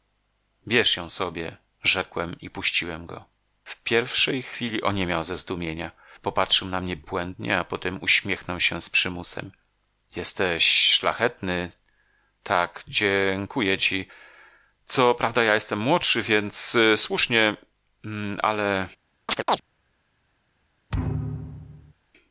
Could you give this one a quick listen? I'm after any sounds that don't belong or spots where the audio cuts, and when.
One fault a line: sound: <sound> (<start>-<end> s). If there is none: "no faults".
sound: chirp (19.3-19.6 s)
sound: thud (20.9-21.9 s)